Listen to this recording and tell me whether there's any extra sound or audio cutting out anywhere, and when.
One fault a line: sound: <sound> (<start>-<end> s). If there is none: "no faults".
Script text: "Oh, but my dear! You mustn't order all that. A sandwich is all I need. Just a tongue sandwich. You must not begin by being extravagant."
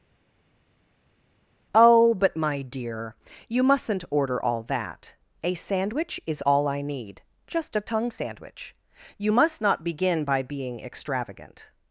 no faults